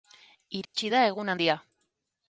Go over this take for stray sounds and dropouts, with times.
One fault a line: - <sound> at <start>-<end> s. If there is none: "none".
- dropout at 0.6-0.7 s